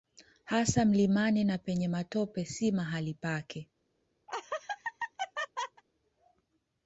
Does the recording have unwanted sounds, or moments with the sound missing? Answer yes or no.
yes